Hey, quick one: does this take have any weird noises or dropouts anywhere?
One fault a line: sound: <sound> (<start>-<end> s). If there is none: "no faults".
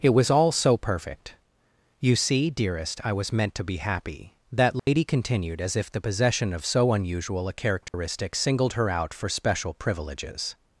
sound: dropout (4.8-4.9 s)
sound: dropout (7.9-7.9 s)